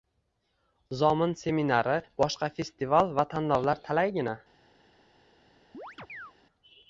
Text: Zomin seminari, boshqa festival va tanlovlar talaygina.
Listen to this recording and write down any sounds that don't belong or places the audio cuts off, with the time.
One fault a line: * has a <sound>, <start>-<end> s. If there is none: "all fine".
* has a chirp, 5.7-6.3 s